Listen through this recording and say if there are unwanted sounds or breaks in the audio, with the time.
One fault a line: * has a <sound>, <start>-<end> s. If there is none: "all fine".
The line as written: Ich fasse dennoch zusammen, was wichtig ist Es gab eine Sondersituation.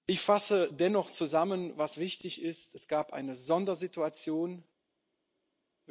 all fine